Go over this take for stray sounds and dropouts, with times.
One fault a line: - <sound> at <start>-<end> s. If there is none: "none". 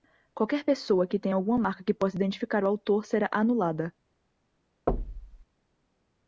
- thud at 4.9-5.5 s